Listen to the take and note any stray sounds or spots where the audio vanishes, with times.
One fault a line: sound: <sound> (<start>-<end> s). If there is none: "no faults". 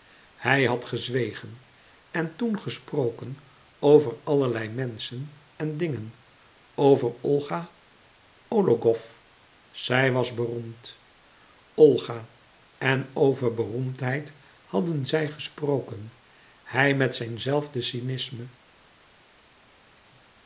no faults